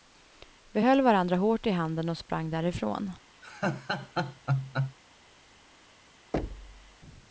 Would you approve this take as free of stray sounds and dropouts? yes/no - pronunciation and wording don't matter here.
no